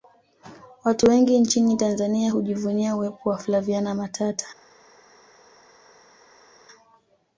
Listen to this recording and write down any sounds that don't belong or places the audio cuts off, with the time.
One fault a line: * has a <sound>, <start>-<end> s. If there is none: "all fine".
all fine